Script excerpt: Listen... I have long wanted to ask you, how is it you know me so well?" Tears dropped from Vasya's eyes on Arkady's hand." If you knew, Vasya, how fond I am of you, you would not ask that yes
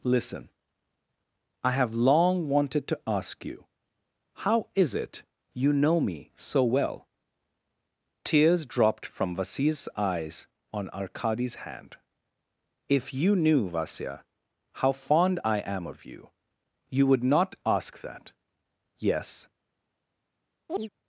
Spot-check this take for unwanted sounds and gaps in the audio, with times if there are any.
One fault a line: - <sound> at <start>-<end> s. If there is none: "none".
- chirp at 20.7-20.9 s